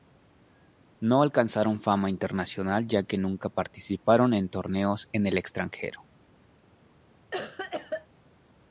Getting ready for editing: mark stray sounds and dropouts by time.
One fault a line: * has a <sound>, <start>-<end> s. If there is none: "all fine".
* has a cough, 7.3-8.1 s